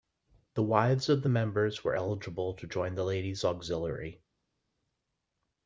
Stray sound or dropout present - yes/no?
no